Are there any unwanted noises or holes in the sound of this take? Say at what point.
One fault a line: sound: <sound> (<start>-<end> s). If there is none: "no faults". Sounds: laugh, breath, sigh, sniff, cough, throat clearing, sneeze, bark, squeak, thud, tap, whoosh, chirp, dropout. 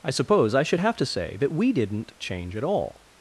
no faults